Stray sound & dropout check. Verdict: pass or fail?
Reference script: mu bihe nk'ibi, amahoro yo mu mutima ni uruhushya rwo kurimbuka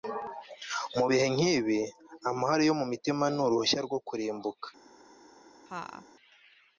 fail